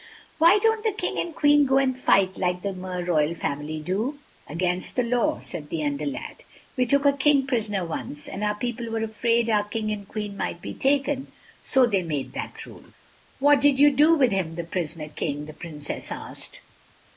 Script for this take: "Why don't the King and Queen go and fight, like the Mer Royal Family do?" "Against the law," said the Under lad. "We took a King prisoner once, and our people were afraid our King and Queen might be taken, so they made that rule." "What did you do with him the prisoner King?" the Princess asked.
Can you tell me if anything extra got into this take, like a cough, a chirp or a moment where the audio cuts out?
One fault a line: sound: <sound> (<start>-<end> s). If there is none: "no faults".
no faults